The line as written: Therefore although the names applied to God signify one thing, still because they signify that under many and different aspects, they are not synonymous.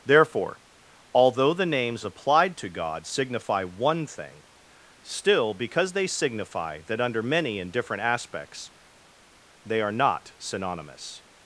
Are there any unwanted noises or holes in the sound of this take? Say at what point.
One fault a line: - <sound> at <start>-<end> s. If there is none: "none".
none